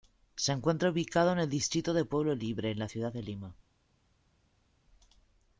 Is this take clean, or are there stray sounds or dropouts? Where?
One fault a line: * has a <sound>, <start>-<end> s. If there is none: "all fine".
all fine